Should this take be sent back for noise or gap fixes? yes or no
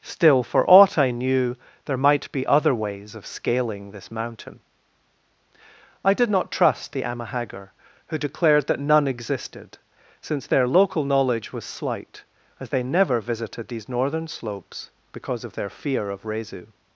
no